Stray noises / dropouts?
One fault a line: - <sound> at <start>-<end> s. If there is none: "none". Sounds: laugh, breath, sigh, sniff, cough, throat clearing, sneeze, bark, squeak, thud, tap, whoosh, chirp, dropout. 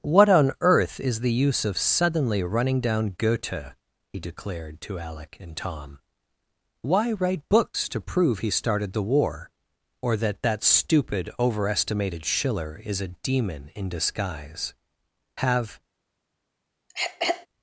- throat clearing at 16.9-17.5 s